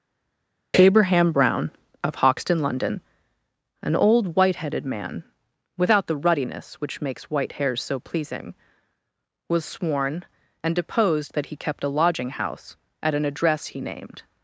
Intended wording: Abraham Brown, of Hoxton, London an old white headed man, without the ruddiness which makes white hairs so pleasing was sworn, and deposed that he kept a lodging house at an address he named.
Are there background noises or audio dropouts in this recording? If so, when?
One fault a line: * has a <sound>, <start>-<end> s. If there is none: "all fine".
all fine